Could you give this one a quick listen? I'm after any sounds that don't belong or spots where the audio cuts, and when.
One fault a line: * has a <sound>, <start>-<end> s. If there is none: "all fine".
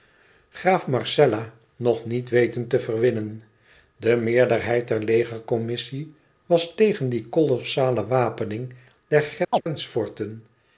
* has a chirp, 9.5-9.6 s